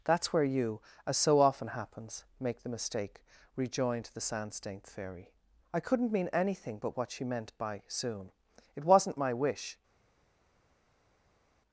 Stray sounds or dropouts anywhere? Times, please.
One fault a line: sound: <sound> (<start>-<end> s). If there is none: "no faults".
no faults